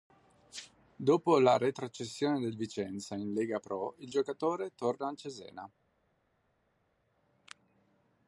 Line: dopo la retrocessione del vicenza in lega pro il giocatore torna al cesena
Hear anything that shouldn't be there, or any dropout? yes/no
no